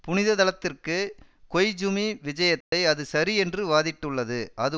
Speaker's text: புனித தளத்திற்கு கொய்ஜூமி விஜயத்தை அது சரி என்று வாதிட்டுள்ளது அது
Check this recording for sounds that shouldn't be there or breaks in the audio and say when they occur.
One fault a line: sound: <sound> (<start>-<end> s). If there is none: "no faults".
sound: dropout (2.6-2.7 s)